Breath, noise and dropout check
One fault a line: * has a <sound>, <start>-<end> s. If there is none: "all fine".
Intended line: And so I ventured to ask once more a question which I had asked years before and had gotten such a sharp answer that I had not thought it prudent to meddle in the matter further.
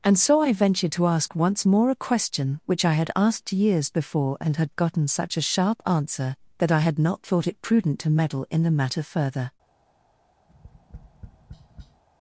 * has a tap, 10.5-12.0 s